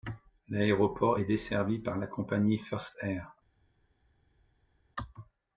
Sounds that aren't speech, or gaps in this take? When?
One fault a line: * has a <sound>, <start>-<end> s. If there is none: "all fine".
all fine